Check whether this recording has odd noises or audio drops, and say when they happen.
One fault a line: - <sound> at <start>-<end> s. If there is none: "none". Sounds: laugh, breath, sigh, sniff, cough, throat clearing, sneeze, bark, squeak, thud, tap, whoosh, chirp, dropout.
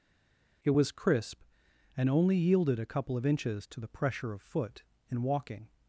none